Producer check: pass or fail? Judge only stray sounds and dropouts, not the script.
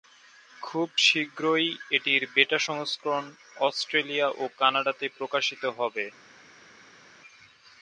pass